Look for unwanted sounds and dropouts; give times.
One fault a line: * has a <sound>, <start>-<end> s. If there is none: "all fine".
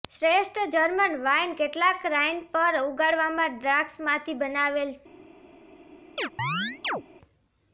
* has a chirp, 6.2-7.0 s